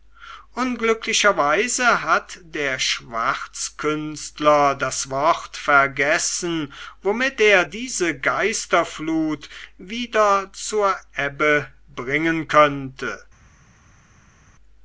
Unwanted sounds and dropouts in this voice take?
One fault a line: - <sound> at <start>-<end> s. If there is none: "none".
none